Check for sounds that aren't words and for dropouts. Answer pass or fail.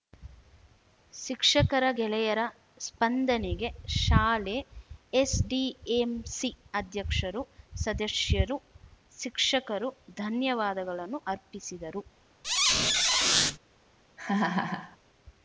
fail